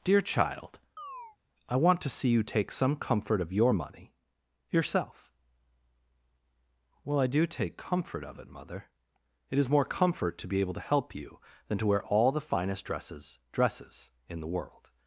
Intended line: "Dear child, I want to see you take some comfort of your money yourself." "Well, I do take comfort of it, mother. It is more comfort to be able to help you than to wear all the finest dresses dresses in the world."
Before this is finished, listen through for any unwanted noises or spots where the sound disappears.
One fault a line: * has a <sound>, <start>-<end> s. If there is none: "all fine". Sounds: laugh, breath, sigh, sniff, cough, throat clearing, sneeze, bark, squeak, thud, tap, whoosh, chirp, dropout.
* has a chirp, 1.0-1.4 s